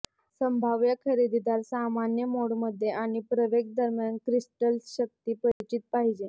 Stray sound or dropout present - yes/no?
yes